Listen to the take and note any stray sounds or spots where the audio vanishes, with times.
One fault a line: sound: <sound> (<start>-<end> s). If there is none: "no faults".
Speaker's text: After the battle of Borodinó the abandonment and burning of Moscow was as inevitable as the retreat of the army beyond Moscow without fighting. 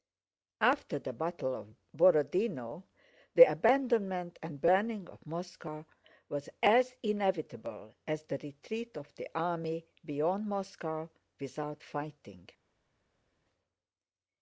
no faults